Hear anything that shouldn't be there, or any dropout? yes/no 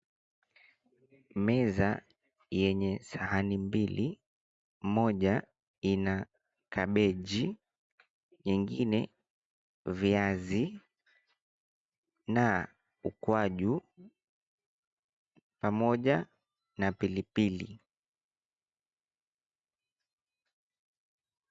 no